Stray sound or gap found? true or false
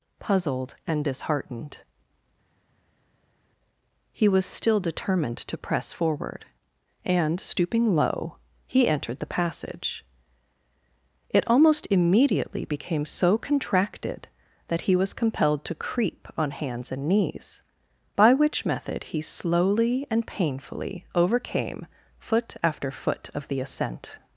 false